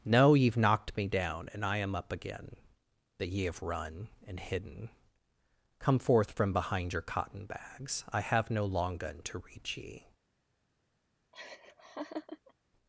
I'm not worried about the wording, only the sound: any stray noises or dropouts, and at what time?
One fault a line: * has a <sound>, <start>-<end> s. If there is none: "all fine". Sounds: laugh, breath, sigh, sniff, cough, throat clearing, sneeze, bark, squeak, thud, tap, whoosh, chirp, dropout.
* has a laugh, 11.3-12.5 s